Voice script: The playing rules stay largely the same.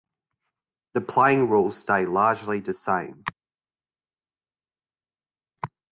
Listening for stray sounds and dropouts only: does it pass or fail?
pass